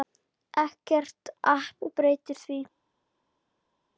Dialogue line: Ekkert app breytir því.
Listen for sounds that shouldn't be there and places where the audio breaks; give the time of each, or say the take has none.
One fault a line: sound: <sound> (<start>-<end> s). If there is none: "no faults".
no faults